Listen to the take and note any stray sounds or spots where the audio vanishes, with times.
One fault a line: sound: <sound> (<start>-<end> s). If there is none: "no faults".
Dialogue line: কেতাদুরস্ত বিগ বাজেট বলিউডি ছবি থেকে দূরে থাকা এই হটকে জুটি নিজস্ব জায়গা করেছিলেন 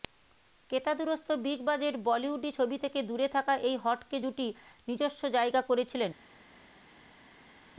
no faults